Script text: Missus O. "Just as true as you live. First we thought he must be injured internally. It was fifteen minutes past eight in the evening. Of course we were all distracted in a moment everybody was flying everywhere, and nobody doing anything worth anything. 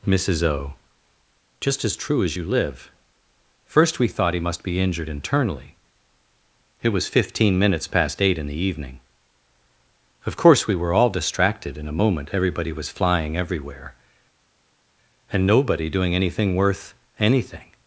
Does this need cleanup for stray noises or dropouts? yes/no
no